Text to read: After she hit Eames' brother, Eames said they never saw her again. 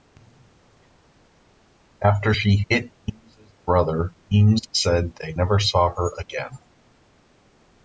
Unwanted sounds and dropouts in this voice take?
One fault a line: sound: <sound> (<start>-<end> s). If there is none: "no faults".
no faults